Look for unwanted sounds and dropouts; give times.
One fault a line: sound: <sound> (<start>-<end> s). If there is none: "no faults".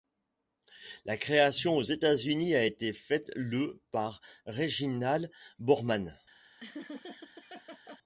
sound: laugh (6.6-8.0 s)